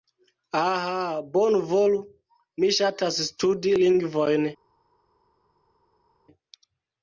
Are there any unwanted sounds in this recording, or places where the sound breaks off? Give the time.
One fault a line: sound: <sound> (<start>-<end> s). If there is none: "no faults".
no faults